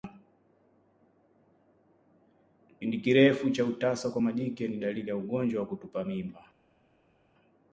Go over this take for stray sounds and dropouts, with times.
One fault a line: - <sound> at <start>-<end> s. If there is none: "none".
none